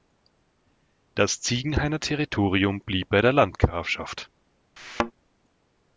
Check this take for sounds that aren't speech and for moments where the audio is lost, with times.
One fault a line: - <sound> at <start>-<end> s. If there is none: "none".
- thud at 4.8-5.1 s